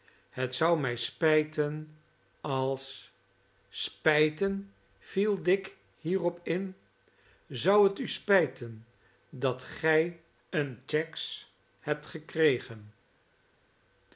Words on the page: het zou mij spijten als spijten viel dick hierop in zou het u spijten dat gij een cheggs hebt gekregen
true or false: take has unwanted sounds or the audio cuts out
false